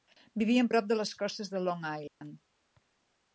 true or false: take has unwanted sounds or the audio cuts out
true